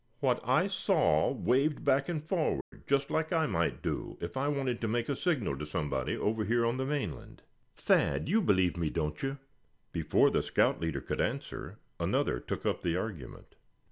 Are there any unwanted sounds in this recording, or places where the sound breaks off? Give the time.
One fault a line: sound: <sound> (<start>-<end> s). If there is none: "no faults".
sound: dropout (2.6-2.7 s)